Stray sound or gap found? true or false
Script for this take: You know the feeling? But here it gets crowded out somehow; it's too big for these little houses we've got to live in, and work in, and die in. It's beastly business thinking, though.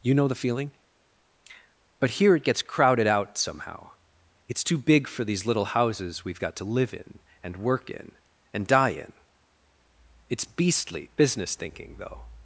false